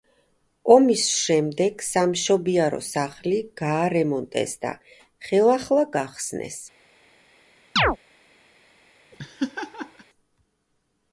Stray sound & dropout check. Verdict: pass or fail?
fail